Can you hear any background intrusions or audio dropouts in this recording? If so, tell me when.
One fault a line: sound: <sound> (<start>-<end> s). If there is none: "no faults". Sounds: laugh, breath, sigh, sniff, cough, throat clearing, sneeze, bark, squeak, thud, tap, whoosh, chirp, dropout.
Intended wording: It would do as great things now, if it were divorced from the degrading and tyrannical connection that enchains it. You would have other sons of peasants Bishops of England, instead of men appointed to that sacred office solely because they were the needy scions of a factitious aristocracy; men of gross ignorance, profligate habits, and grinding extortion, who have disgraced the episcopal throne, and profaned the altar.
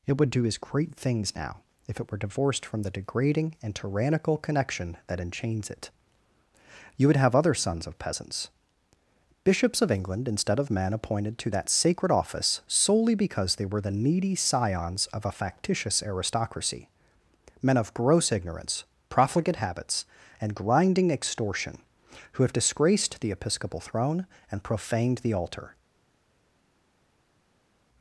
no faults